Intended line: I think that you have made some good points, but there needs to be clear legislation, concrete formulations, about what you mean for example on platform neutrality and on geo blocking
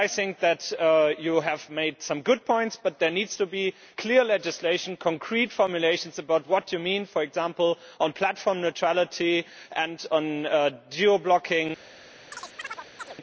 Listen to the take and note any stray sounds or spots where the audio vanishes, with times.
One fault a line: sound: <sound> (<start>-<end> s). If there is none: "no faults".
sound: chirp (12.3-13.2 s)